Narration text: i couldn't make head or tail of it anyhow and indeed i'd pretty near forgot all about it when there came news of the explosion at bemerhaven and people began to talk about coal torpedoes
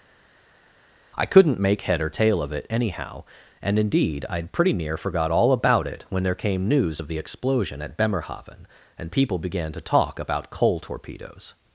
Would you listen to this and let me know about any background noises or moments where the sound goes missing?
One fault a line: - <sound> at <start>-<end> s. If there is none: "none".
none